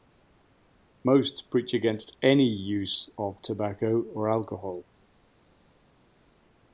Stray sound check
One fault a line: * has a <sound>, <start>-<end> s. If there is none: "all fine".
all fine